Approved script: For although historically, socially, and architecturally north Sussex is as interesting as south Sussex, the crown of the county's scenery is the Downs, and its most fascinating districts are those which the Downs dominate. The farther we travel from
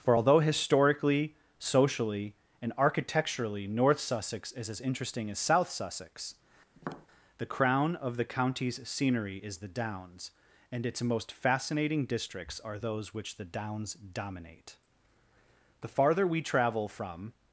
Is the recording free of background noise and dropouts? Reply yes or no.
no